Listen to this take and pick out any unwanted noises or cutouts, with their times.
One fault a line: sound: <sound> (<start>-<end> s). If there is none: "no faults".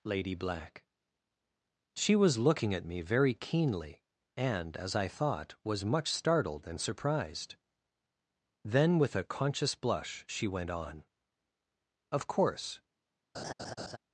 sound: laugh (13.3-14.0 s)